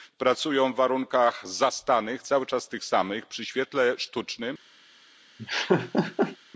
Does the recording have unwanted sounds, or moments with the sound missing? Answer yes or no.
yes